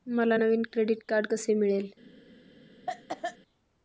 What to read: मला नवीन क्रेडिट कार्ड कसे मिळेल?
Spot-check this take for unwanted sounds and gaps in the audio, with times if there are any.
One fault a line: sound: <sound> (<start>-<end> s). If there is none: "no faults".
sound: cough (2.9-3.4 s)